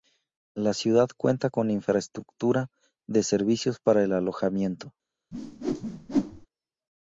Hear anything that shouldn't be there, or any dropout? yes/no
yes